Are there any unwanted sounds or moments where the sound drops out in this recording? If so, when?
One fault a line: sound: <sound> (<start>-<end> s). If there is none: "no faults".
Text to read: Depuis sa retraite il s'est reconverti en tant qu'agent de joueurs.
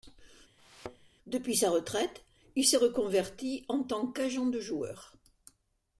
sound: thud (0.6-1.1 s)